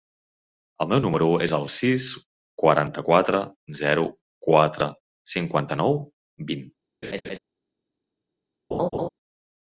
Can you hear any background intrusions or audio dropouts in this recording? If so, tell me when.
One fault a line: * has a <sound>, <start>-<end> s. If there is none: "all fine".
* has a laugh, 7.0-7.4 s
* has a laugh, 8.7-9.1 s